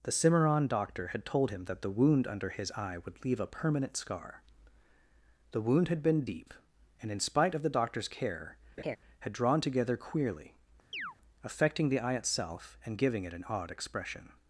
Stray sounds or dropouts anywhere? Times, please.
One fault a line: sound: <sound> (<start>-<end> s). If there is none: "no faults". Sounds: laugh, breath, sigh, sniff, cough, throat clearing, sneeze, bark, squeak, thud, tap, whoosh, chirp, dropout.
sound: laugh (8.8-9.0 s)
sound: chirp (10.9-11.2 s)